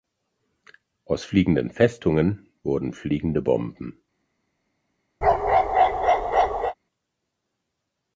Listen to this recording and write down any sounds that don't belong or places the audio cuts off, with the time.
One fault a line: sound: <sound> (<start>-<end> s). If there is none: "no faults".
sound: bark (5.2-6.7 s)